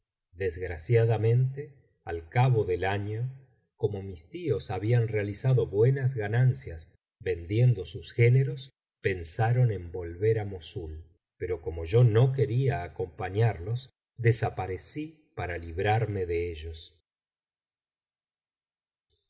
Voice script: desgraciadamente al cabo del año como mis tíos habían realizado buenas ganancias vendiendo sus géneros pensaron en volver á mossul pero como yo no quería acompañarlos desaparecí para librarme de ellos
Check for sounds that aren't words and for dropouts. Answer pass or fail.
pass